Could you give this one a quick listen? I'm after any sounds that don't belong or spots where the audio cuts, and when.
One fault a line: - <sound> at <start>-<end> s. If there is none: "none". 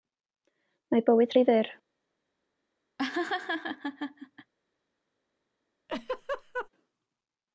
- laugh at 3.0-4.5 s
- laugh at 5.9-6.7 s